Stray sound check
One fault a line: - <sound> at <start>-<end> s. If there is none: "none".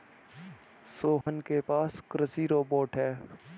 - dropout at 1.2-1.3 s